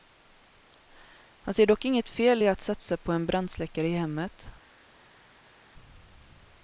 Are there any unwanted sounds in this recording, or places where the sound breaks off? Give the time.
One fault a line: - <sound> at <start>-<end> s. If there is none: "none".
none